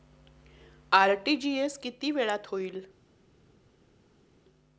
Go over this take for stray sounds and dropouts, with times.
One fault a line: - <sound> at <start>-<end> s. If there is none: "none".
none